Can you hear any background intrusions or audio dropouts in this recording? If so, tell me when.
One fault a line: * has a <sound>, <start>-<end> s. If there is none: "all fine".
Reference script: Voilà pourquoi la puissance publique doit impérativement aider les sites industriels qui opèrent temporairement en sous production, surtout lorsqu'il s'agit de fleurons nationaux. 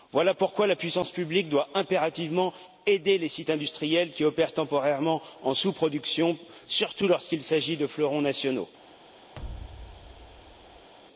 * has a thud, 9.3-10.9 s